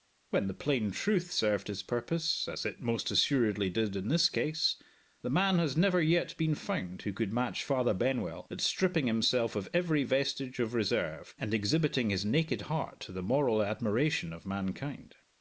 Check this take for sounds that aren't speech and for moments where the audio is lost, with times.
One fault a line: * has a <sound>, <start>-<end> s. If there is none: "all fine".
all fine